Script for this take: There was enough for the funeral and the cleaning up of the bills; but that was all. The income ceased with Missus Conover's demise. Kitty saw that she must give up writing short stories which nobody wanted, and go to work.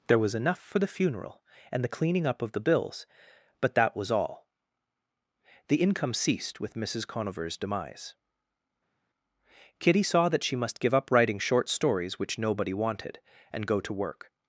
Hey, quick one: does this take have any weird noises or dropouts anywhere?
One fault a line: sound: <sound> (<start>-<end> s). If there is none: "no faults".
no faults